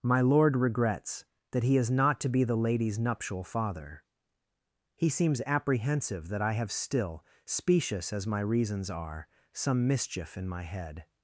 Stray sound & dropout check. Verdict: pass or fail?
pass